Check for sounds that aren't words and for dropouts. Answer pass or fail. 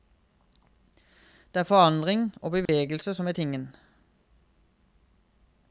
fail